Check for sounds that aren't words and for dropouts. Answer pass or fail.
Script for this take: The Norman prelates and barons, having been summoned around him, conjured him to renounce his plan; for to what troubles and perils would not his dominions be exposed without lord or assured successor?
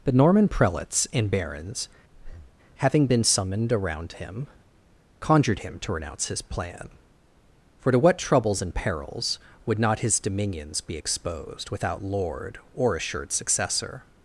fail